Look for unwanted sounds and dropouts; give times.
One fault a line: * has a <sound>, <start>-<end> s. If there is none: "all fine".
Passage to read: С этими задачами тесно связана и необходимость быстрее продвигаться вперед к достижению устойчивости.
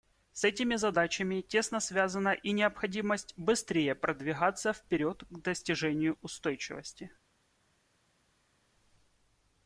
all fine